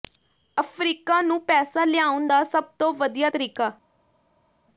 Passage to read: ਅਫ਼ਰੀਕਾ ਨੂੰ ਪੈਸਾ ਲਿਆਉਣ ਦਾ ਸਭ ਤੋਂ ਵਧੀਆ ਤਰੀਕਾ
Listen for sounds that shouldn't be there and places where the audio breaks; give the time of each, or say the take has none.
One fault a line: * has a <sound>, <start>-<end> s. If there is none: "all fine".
all fine